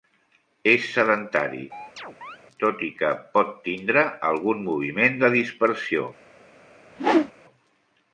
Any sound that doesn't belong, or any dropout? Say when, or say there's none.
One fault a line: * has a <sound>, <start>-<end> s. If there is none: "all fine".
* has a chirp, 1.7-2.4 s
* has a whoosh, 6.9-7.3 s